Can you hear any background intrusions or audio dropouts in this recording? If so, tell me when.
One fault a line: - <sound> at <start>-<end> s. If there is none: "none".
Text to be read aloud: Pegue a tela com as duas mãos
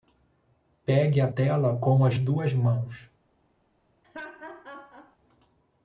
- laugh at 4.0-5.2 s